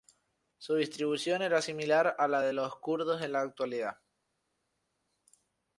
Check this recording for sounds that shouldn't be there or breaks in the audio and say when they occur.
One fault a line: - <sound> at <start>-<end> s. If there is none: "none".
none